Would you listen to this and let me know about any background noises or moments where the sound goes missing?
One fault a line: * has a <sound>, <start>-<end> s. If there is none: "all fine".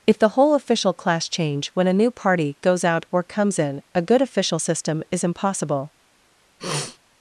* has a sniff, 6.6-7.0 s